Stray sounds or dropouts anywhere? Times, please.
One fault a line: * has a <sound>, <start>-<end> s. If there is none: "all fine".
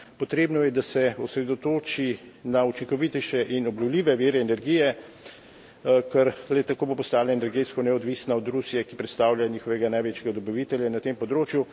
all fine